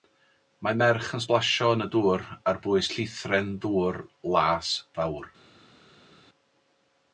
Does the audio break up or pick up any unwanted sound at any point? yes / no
no